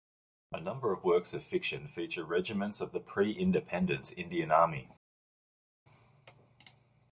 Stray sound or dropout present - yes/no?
no